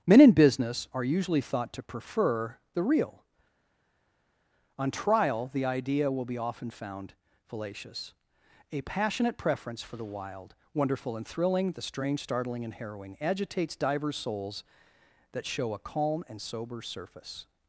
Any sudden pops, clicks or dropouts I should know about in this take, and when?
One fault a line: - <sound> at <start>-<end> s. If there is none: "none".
none